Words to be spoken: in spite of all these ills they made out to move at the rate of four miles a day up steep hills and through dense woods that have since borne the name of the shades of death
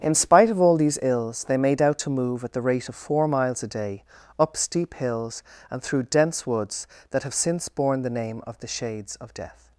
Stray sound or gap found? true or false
false